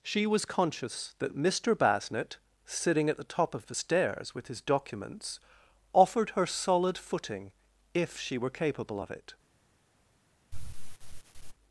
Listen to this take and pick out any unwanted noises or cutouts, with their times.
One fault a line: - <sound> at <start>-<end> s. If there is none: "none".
- sigh at 10.5-11.5 s